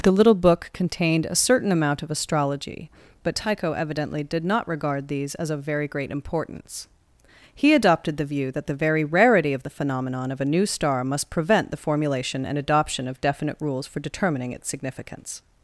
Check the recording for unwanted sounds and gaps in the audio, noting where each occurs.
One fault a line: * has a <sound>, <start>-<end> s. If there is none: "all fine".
all fine